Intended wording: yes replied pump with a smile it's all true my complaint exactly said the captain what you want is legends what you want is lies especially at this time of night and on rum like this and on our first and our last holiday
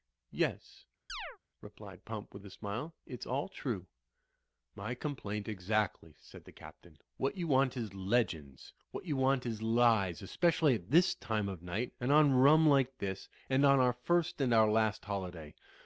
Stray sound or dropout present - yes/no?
yes